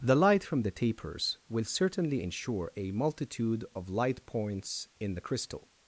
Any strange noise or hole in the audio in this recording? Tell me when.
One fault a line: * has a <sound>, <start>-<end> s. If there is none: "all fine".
all fine